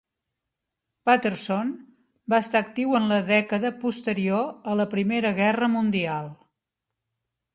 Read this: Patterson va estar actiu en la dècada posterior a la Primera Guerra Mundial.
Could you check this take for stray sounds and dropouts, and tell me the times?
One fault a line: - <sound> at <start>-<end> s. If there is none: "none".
none